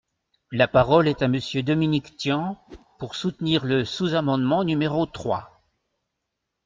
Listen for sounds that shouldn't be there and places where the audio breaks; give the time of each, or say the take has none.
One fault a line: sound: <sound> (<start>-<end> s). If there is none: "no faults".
sound: whoosh (2.7-2.9 s)